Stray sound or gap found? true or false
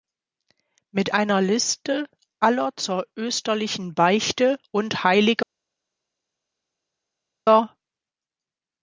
false